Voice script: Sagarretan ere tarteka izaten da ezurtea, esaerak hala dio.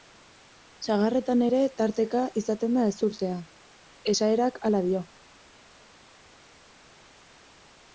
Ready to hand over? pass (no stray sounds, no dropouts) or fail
pass